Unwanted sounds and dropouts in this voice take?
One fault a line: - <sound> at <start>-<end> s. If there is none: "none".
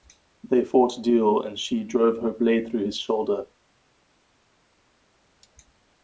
none